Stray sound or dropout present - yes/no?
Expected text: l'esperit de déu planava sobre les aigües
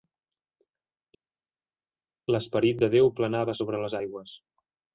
no